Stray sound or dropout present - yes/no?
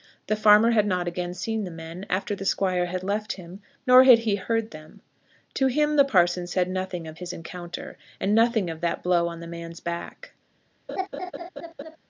yes